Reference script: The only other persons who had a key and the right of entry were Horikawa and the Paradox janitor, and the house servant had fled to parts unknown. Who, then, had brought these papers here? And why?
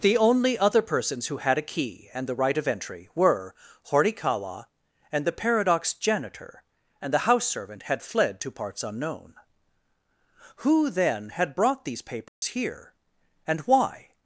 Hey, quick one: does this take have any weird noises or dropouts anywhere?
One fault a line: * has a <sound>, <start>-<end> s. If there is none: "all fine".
* has a dropout, 12.3-12.4 s